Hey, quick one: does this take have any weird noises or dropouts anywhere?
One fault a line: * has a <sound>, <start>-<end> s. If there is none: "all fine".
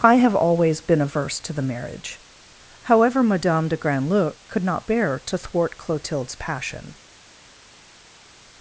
all fine